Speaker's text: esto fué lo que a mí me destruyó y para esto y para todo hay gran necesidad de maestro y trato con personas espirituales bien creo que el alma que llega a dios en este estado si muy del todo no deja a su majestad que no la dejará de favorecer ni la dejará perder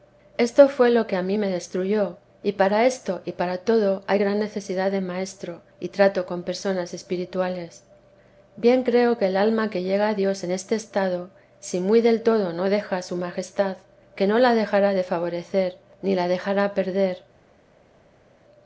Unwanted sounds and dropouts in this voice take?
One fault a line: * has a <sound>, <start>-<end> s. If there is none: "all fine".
all fine